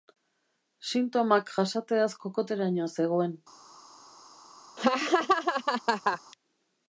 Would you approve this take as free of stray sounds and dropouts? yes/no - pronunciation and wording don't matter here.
no